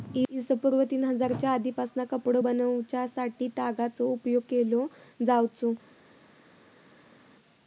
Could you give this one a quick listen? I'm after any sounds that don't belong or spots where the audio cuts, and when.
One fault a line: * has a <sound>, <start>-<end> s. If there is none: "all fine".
all fine